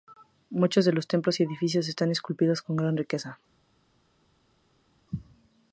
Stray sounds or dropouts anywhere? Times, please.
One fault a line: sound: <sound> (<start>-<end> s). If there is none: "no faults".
no faults